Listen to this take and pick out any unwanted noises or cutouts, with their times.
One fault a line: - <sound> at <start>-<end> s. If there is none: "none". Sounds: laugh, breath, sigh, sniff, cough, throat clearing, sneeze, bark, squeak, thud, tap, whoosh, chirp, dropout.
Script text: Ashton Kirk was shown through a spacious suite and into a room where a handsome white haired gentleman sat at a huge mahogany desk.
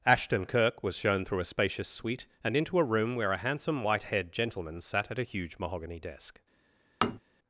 - tap at 7.0-7.2 s